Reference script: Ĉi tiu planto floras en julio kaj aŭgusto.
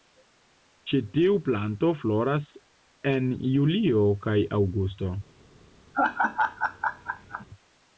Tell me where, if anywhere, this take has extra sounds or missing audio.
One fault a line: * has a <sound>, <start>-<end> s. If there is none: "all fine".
* has a laugh, 5.9-7.5 s